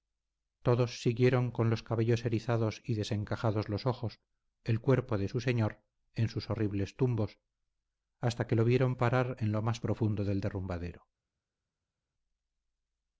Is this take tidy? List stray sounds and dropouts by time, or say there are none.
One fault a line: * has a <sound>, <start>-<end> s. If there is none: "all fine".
all fine